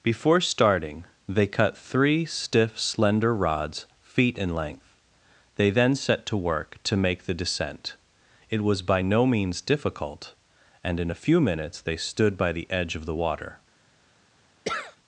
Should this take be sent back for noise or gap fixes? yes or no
yes